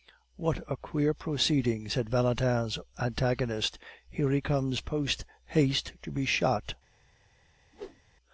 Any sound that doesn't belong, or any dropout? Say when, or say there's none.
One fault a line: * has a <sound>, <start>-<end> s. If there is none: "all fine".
* has a whoosh, 7.7-8.0 s